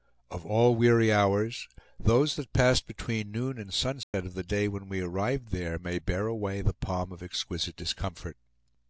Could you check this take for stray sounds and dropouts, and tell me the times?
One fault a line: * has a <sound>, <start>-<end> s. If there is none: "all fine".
* has a dropout, 4.0-4.1 s